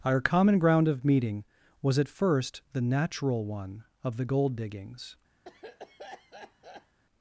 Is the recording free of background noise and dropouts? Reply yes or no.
no